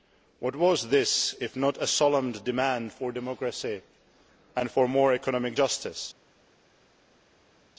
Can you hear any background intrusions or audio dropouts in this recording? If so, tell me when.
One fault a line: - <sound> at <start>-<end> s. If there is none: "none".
none